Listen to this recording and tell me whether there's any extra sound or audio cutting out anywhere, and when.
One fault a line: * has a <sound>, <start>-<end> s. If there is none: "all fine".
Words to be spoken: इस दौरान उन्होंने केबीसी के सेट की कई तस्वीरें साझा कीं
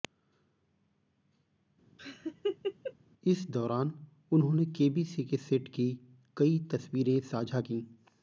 * has a laugh, 2.0-2.9 s